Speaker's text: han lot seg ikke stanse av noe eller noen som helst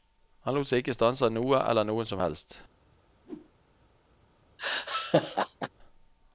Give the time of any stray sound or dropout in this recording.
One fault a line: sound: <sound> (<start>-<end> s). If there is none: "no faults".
sound: whoosh (3.2-3.5 s)
sound: laugh (4.6-5.7 s)